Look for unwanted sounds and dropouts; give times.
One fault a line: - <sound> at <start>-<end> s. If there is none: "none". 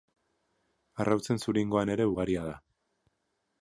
none